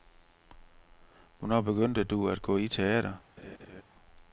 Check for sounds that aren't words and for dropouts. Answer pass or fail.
fail